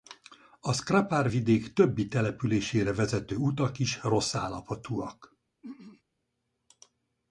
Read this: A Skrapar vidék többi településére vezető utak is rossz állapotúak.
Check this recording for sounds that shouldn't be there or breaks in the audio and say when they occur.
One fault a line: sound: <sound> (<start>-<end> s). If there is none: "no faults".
sound: throat clearing (5.6-6.0 s)